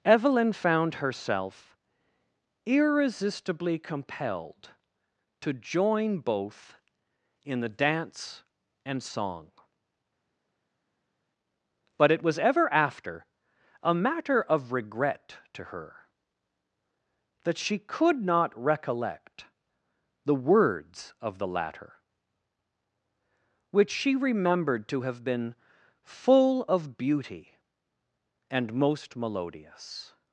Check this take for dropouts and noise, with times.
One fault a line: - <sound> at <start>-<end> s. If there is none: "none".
none